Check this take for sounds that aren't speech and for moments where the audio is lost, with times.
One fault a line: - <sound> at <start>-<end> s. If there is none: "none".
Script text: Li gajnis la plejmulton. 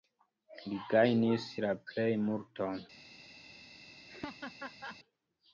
- laugh at 4.1-5.0 s